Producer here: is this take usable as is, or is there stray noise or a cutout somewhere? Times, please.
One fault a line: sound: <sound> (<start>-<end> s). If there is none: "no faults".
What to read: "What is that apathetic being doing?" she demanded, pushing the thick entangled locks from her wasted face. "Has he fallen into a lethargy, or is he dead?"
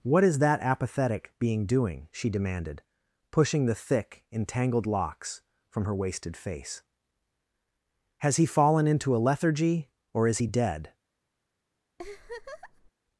sound: laugh (12.0-12.9 s)